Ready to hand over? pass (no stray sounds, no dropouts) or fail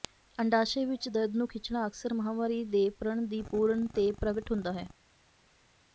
pass